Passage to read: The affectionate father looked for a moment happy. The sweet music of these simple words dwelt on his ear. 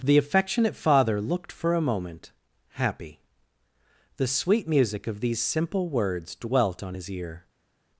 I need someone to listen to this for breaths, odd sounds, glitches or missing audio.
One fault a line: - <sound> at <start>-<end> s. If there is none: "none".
none